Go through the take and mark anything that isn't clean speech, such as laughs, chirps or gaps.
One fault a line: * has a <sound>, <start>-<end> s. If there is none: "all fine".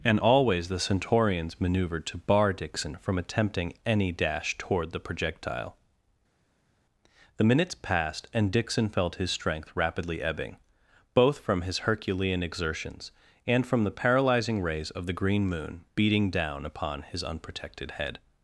all fine